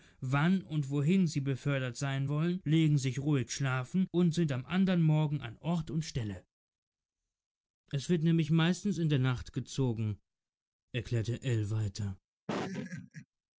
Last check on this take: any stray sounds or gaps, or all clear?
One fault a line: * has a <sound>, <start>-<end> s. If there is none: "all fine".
* has a laugh, 12.5-13.3 s